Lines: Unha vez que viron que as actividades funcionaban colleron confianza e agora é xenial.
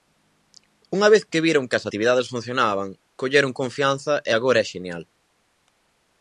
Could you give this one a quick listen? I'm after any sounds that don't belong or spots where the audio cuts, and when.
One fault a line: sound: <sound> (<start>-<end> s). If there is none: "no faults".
no faults